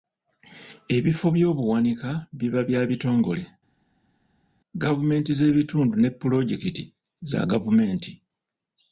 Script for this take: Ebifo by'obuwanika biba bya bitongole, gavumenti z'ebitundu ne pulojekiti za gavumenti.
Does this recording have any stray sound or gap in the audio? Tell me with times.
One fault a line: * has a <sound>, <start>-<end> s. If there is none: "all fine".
all fine